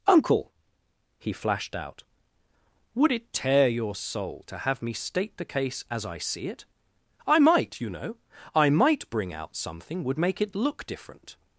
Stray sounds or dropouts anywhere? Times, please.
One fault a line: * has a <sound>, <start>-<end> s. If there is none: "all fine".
all fine